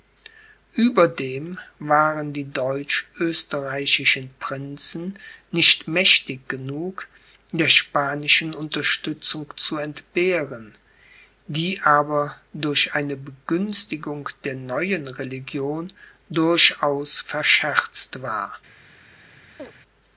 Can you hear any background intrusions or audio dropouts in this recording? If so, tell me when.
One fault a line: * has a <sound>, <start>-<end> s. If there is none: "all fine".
* has a chirp, 19.6-19.7 s